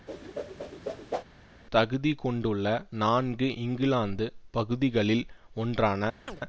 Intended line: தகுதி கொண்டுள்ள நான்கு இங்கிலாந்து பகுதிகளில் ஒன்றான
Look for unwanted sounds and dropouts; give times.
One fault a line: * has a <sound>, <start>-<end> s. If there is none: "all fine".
* has a whoosh, 0.1-1.2 s
* has a chirp, 6.3-6.4 s